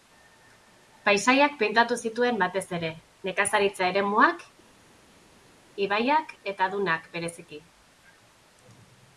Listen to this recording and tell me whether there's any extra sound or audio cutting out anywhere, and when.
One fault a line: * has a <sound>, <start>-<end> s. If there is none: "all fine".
all fine